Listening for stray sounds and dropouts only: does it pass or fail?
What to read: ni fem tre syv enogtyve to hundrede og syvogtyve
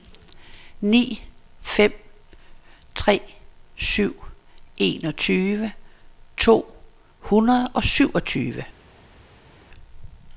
pass